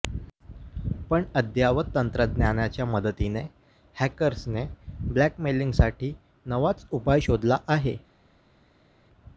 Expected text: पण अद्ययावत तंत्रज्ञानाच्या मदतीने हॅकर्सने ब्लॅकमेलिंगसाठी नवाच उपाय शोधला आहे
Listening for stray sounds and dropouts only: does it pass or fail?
pass